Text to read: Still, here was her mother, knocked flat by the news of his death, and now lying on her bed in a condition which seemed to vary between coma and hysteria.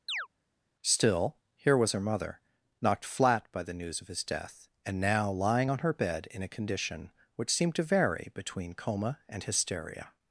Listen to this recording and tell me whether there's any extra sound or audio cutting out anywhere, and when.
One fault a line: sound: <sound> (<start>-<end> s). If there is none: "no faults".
sound: chirp (0.1-0.3 s)